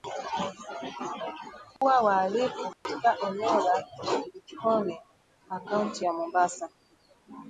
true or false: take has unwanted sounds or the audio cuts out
true